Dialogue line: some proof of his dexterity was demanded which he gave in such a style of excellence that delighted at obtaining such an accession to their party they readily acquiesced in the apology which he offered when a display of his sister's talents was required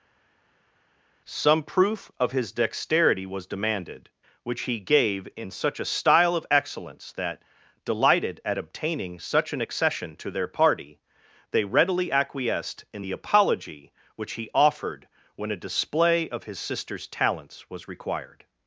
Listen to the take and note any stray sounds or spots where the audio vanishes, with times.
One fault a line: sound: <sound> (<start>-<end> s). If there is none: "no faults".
no faults